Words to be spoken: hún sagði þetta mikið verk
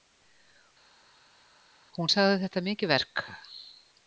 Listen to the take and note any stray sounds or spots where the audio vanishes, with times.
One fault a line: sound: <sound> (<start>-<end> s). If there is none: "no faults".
no faults